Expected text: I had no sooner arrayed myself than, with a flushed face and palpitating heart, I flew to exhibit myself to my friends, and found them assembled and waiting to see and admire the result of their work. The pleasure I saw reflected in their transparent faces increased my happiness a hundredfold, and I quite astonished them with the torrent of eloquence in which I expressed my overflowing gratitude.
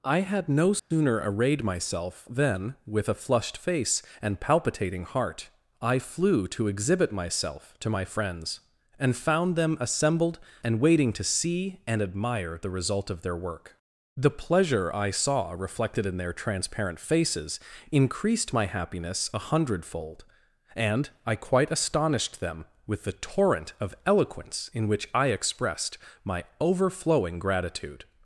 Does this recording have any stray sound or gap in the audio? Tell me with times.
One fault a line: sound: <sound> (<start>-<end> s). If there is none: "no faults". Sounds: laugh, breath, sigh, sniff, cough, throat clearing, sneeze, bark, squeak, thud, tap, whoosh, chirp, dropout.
sound: dropout (0.8-0.9 s)